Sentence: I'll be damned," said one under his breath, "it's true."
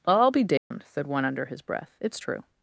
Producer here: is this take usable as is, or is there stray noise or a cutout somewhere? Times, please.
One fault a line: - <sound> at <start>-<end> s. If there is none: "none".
- dropout at 0.6-0.7 s